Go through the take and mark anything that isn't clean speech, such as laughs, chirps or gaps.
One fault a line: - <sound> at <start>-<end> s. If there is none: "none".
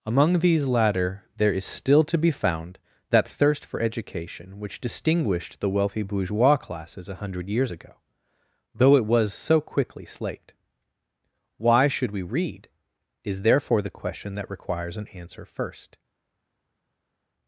none